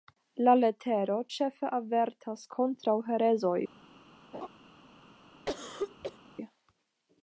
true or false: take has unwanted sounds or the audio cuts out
true